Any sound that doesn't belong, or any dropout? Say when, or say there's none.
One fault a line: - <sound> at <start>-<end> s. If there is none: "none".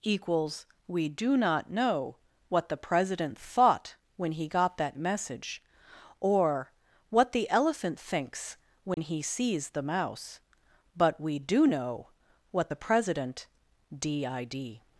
- dropout at 8.9-9.0 s